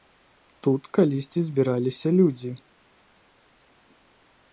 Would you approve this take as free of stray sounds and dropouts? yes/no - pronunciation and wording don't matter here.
yes